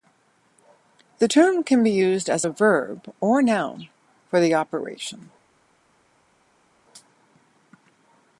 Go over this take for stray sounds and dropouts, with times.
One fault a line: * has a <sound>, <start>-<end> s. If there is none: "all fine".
all fine